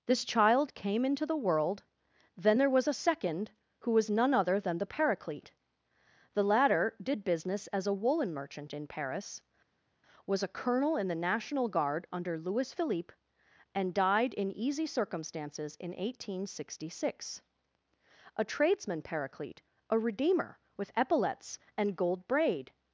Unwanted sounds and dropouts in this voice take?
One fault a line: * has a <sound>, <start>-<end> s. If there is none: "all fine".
all fine